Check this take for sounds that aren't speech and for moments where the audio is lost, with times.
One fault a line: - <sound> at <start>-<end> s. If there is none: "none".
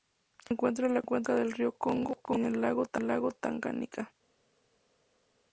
none